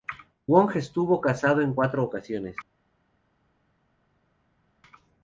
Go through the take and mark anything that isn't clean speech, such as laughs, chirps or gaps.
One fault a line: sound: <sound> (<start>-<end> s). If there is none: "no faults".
no faults